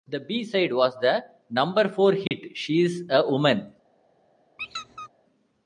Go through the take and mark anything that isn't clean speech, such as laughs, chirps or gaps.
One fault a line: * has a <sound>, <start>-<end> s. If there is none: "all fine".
* has a dropout, 2.3-2.3 s
* has a squeak, 4.6-5.1 s